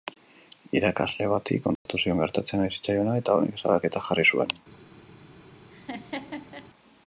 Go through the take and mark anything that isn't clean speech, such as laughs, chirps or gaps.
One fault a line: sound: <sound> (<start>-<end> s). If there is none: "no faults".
sound: dropout (1.8-1.9 s)
sound: laugh (5.7-6.7 s)